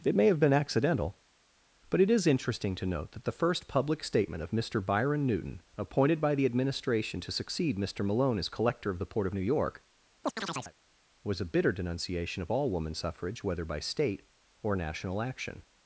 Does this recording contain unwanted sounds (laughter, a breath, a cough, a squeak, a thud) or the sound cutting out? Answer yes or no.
yes